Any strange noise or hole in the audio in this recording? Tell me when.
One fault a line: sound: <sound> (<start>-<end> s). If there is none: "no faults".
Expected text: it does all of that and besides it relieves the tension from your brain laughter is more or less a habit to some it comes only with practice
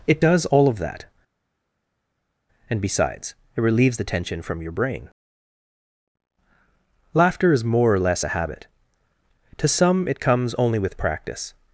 no faults